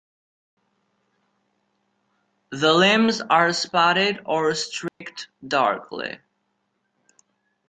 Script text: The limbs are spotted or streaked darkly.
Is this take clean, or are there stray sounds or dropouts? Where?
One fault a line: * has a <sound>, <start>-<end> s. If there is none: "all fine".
* has a dropout, 4.9-5.0 s